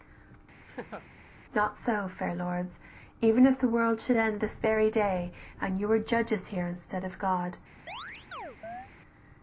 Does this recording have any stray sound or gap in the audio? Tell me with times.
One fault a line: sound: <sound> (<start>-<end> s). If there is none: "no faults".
sound: laugh (0.7-1.1 s)
sound: chirp (7.9-8.9 s)